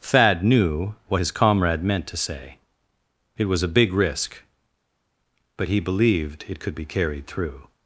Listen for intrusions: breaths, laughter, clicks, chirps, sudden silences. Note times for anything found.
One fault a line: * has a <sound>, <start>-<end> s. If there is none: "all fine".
all fine